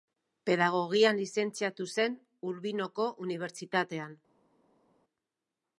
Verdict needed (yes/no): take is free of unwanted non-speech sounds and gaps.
yes